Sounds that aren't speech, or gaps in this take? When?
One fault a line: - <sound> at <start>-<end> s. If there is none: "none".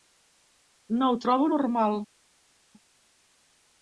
none